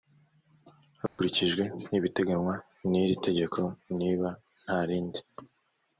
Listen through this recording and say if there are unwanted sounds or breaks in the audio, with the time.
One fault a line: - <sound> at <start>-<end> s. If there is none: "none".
- dropout at 1.1-1.2 s